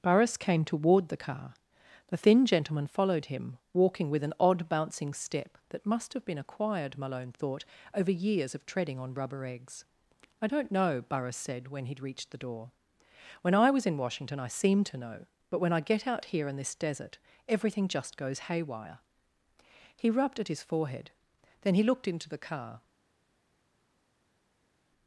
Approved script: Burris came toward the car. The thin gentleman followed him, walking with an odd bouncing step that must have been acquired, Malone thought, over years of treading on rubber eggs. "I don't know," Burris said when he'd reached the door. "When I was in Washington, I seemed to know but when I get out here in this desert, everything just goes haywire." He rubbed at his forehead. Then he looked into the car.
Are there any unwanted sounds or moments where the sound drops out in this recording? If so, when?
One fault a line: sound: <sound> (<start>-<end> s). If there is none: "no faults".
no faults